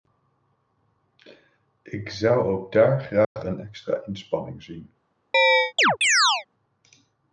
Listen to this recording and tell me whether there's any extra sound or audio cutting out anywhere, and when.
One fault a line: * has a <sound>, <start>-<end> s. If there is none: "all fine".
* has a dropout, 3.2-3.4 s
* has a chirp, 5.3-6.5 s